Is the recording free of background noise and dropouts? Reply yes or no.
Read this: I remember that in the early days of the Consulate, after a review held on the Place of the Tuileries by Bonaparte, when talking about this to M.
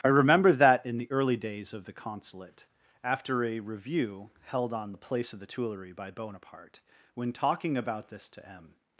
yes